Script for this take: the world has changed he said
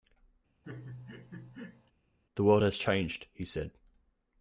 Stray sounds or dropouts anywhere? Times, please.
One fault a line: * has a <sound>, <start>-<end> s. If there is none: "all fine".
* has a laugh, 0.6-1.9 s